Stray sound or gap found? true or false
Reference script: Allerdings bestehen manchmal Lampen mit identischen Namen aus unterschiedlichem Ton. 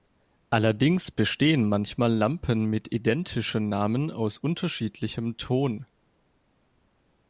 false